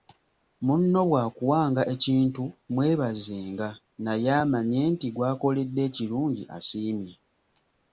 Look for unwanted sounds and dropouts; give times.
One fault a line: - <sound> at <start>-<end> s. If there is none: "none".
none